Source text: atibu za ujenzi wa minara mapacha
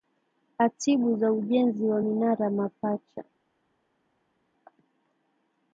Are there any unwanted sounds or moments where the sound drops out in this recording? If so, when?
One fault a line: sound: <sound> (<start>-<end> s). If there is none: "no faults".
no faults